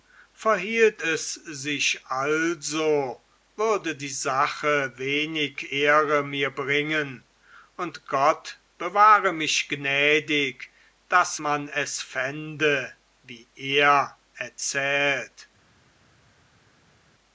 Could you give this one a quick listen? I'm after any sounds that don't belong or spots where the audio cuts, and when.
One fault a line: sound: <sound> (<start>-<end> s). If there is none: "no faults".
no faults